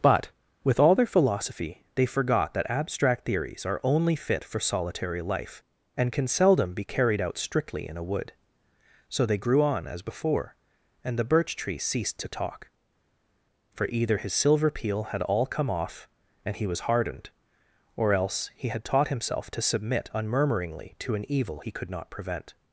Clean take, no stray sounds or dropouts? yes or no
yes